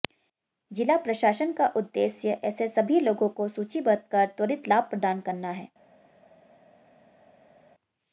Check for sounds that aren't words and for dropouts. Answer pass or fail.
pass